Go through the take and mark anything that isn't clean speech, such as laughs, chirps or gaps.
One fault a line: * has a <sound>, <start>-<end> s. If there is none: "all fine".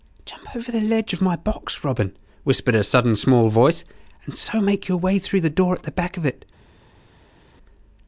all fine